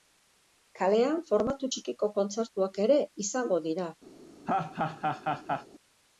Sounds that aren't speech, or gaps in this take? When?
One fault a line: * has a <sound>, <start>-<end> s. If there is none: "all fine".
* has a laugh, 4.5-5.7 s